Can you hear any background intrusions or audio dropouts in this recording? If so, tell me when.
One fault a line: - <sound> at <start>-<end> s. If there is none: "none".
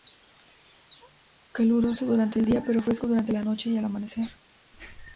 none